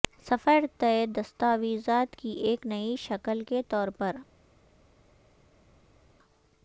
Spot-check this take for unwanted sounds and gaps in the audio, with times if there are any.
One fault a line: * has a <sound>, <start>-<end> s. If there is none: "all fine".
all fine